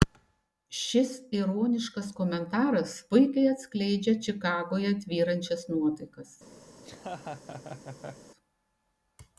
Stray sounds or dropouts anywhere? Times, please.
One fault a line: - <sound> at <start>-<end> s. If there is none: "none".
- laugh at 6.7-8.3 s